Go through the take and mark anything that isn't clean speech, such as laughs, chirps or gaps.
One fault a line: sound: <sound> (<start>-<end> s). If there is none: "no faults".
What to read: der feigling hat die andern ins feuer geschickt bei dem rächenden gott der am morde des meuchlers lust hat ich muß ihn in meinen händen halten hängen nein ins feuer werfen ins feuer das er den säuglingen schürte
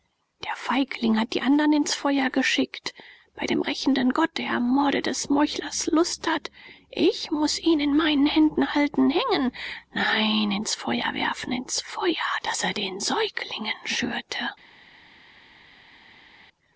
no faults